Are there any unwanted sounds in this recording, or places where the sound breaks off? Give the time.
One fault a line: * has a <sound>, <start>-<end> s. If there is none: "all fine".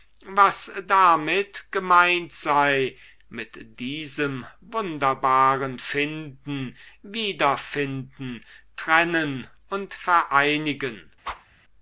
* has a whoosh, 11.2-11.5 s